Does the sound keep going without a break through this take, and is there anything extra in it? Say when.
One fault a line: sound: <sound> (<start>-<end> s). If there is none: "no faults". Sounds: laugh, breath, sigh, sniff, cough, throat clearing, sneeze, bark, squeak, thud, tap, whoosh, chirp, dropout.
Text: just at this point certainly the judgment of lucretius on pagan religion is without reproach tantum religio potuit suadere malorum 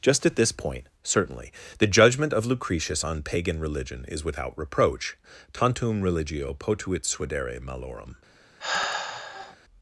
sound: sigh (8.6-9.6 s)